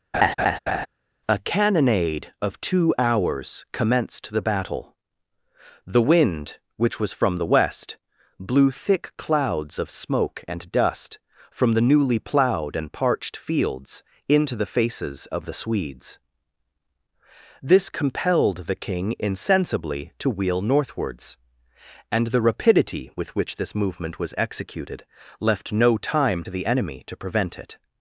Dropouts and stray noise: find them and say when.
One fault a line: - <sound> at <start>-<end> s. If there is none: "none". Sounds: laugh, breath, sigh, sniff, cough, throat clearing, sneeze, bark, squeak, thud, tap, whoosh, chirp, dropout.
- laugh at 0.1-0.9 s